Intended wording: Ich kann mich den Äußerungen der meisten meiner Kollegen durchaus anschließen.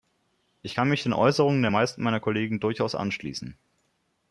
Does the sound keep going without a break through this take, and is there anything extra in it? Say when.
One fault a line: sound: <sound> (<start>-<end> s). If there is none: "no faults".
no faults